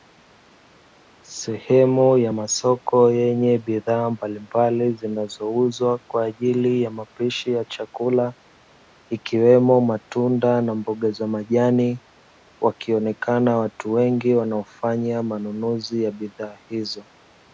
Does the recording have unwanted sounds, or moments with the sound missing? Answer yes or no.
no